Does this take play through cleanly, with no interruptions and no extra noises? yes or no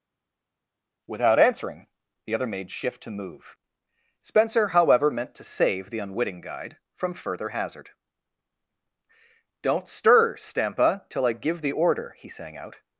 yes